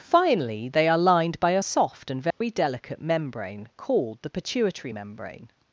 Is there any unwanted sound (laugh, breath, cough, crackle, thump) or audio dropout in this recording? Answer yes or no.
yes